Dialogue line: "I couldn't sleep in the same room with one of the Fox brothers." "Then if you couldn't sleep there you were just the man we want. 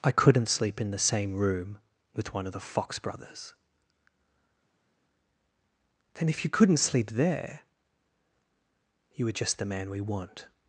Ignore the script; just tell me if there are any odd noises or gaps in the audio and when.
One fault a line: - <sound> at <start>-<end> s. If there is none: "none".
none